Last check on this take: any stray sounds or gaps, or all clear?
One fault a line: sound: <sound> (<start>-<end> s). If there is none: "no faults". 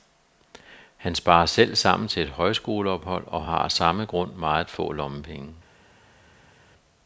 no faults